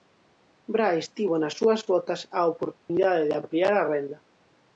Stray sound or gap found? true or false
true